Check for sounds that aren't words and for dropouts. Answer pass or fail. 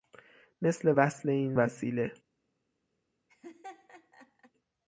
fail